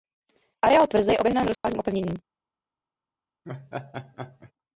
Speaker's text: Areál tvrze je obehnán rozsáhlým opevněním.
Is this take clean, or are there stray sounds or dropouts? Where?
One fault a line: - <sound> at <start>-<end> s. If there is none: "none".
- dropout at 1.5-1.6 s
- laugh at 3.4-4.5 s